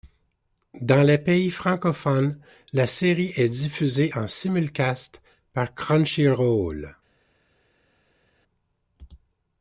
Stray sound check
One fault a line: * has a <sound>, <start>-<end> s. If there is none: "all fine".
all fine